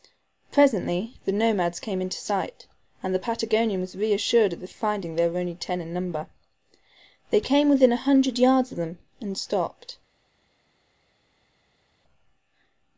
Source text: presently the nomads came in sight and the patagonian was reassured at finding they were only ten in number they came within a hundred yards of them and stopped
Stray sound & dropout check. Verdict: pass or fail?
pass